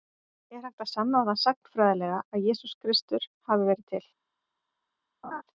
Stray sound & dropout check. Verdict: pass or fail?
fail